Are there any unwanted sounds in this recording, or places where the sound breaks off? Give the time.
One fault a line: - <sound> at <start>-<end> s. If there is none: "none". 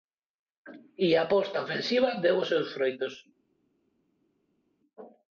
none